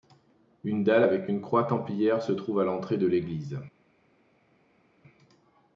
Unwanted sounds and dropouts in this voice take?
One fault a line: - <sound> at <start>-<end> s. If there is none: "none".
none